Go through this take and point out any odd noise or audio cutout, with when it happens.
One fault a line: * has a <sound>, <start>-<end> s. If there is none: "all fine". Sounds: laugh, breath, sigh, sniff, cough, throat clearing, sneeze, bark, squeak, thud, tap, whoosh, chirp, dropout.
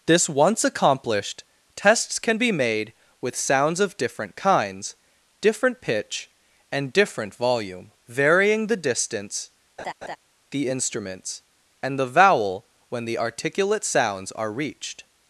* has a laugh, 9.8-10.2 s